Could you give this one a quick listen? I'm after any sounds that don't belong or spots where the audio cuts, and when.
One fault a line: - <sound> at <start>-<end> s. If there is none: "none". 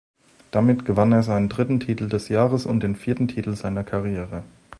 none